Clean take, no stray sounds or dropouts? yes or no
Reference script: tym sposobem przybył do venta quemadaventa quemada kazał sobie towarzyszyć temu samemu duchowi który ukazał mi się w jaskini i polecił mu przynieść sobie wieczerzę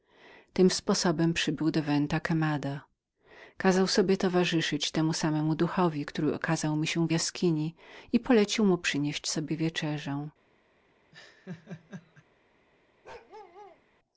no